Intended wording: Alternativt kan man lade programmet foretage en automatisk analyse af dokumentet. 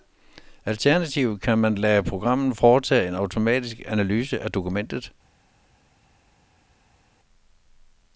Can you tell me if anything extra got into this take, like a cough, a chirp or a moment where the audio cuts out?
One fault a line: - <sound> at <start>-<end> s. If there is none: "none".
none